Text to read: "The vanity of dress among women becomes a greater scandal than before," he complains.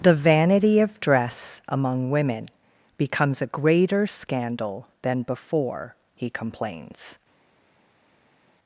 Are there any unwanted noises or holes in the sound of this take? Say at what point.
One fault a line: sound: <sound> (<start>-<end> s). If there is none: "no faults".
no faults